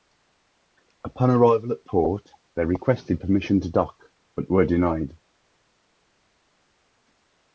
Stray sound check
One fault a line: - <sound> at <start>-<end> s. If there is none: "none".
none